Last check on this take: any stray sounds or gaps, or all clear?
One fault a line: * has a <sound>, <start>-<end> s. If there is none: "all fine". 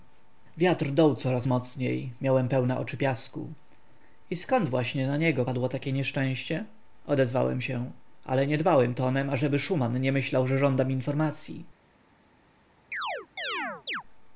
* has a chirp, 12.9-14.0 s